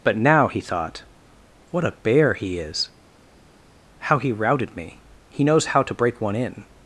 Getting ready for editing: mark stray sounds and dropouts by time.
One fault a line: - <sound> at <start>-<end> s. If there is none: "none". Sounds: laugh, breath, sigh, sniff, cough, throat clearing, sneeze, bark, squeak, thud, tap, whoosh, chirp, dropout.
none